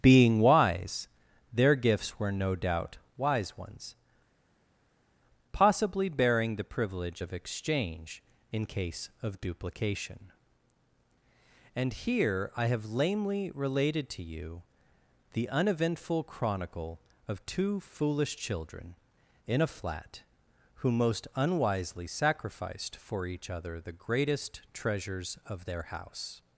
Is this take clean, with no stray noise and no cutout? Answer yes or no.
yes